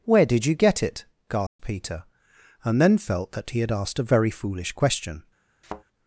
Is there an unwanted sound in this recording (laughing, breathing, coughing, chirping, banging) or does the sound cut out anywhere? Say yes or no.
yes